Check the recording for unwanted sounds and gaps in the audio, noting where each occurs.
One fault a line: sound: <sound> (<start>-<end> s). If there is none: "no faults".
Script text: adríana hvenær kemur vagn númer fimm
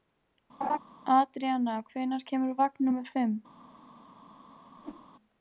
sound: laugh (0.6-0.8 s)
sound: whoosh (4.8-5.1 s)